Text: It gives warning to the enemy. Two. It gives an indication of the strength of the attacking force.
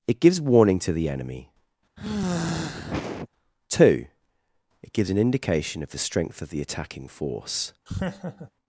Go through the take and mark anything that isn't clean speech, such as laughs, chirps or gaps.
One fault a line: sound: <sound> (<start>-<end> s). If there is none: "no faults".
sound: sigh (2.0-3.3 s)
sound: laugh (7.9-8.5 s)